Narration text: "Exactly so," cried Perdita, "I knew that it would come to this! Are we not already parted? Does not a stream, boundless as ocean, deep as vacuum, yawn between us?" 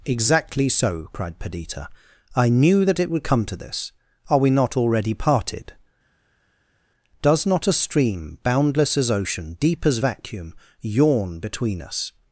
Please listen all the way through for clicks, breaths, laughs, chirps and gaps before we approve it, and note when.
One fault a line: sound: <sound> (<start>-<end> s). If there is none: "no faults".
no faults